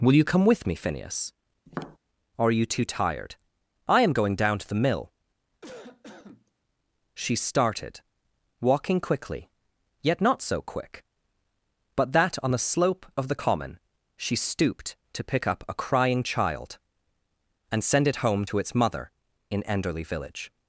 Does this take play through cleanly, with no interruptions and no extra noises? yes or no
no